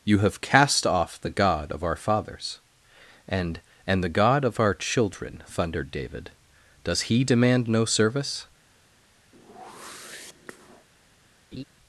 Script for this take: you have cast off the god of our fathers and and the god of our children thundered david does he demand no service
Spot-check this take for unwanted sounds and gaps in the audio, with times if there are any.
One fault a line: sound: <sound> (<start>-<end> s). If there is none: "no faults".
sound: whoosh (9.3-10.9 s)
sound: laugh (11.5-11.6 s)